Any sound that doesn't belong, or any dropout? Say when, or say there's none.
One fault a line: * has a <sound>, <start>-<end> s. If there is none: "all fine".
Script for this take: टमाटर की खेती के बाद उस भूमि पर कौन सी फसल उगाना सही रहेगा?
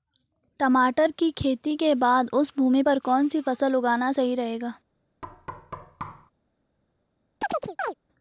* has a thud, 5.2-6.3 s
* has a chirp, 7.4-7.9 s